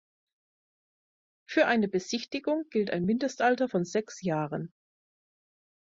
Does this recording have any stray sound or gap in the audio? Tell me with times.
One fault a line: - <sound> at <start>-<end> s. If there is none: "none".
none